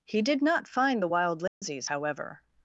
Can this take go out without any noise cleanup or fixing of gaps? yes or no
no